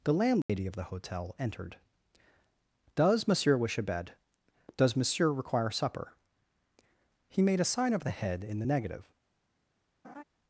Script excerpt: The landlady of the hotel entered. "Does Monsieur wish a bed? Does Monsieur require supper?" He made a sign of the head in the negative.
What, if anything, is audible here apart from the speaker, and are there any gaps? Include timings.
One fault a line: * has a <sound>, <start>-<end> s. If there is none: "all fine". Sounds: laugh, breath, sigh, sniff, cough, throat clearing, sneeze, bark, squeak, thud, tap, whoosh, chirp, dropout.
* has a dropout, 0.4-0.5 s
* has a laugh, 10.0-10.2 s